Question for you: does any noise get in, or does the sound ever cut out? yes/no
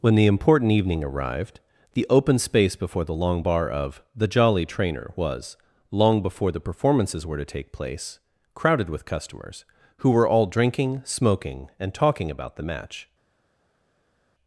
no